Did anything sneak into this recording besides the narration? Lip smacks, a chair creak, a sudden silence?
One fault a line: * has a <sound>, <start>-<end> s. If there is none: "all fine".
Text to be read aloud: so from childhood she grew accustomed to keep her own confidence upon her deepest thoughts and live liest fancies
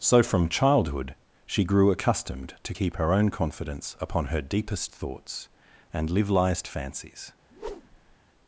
* has a whoosh, 7.5-8.2 s